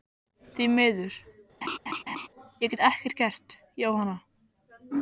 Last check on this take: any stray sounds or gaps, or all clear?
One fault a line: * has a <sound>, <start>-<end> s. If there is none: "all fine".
* has a laugh, 1.6-2.3 s